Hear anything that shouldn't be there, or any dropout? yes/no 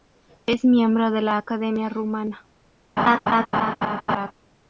yes